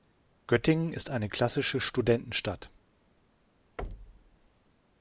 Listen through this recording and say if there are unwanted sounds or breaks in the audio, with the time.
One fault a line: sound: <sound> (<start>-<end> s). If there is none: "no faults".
sound: thud (3.8-4.4 s)